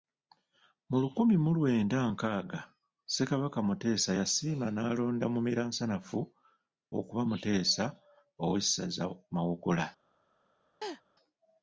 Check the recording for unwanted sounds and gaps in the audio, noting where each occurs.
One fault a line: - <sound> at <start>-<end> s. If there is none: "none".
- laugh at 10.8-11.0 s